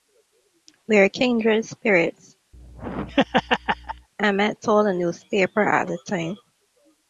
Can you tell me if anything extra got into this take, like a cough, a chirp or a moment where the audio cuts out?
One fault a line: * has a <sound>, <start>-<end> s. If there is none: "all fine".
* has a laugh, 2.5-4.1 s